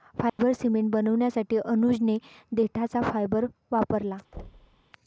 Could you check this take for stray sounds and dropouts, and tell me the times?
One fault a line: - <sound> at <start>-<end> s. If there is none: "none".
- dropout at 0.3-0.4 s
- thud at 4.3-4.8 s